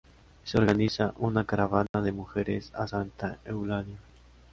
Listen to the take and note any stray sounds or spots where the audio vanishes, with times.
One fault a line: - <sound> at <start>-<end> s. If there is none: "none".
- dropout at 1.9-1.9 s